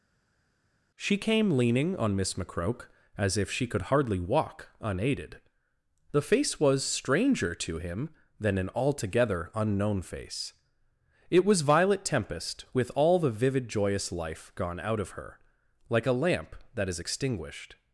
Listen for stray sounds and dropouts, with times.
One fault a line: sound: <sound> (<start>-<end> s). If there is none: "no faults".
no faults